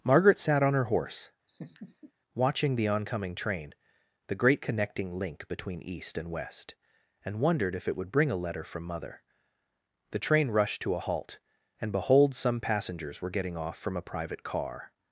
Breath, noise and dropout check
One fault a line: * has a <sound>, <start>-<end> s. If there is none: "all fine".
* has a laugh, 1.5-2.1 s